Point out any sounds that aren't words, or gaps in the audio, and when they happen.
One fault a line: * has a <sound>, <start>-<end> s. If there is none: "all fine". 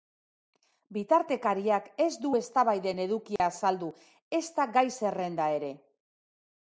* has a dropout, 3.4-3.4 s